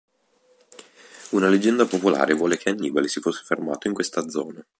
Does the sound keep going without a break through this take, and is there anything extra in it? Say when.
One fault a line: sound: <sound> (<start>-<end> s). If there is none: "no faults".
no faults